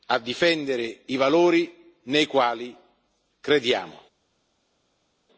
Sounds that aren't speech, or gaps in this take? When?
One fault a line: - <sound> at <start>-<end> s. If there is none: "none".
none